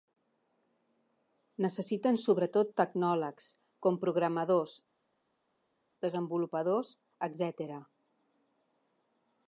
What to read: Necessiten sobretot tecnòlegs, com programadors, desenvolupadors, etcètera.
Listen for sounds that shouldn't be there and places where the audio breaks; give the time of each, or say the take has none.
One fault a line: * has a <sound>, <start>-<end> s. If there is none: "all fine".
all fine